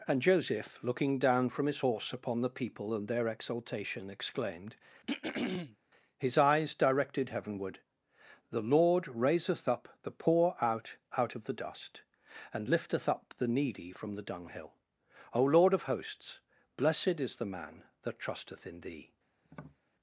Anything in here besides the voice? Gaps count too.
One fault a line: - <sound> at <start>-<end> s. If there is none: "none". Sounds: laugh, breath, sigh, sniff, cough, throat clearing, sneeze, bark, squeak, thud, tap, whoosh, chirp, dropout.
- throat clearing at 5.0-5.8 s
- tap at 19.4-19.8 s